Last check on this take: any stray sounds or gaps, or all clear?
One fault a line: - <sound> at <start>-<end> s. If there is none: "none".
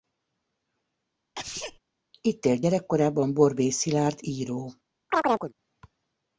- sneeze at 1.4-1.8 s
- chirp at 5.1-5.5 s